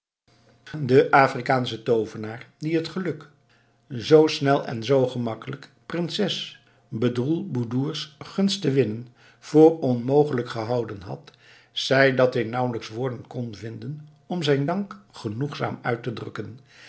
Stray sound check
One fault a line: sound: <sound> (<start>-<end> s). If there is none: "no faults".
no faults